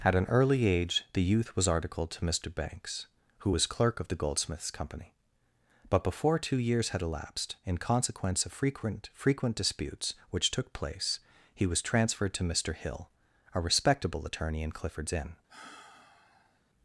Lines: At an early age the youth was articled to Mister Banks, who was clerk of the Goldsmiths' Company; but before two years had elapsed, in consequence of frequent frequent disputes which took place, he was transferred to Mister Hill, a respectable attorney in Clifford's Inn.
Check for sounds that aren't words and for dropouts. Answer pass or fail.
fail